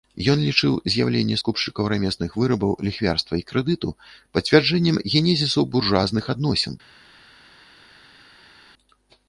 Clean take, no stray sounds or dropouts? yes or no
yes